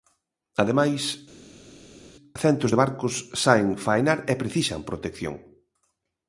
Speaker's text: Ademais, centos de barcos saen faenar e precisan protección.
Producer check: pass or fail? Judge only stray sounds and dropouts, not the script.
pass